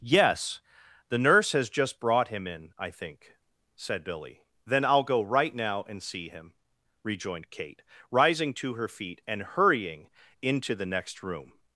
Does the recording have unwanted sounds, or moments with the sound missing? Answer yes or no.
no